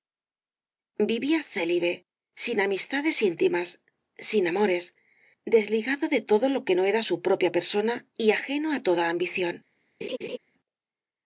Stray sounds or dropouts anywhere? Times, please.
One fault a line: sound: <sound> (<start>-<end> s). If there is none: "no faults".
sound: laugh (10.0-10.4 s)